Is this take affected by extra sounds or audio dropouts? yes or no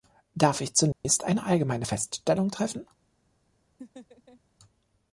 yes